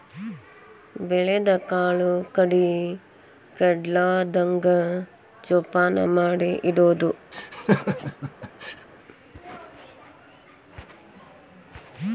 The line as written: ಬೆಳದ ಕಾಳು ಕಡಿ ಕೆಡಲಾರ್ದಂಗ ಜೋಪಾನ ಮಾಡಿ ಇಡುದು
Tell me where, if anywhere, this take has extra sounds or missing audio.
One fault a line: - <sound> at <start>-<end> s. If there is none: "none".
- laugh at 7.3-8.9 s